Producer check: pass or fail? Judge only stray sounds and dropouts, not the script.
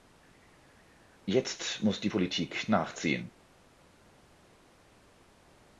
pass